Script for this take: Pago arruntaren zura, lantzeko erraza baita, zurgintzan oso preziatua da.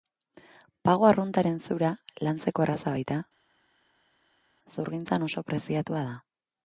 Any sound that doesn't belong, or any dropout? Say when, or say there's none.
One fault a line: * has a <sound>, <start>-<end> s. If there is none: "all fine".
all fine